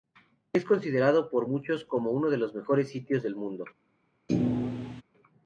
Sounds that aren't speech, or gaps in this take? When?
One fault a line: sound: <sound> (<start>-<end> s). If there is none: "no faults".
sound: thud (4.3-5.0 s)